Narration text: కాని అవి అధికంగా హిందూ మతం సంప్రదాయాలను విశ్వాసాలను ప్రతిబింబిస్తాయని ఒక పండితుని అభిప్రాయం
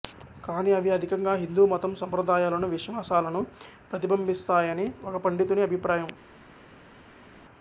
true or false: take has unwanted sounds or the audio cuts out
false